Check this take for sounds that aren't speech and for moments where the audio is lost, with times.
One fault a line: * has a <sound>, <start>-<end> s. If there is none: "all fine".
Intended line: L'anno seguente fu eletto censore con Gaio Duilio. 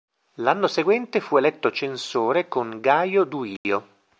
* has a dropout, 3.6-3.6 s